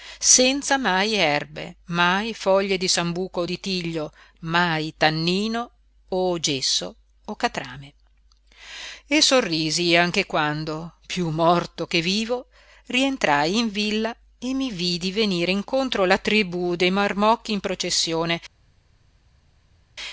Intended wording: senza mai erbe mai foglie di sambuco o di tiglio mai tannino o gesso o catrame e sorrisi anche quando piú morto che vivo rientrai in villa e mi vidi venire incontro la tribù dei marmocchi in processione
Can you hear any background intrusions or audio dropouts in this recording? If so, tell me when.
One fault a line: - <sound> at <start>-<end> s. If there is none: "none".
none